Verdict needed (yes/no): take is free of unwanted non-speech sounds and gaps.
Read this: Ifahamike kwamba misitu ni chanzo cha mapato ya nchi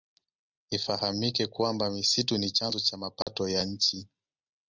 no